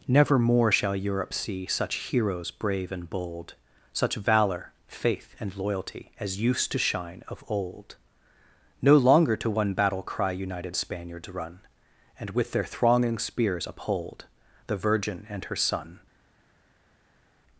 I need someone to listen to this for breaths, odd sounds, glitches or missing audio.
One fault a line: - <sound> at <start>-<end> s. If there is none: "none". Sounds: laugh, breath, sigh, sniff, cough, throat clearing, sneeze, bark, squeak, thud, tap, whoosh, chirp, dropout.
none